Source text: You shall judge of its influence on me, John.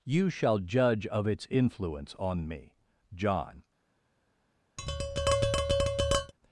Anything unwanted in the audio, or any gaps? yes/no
yes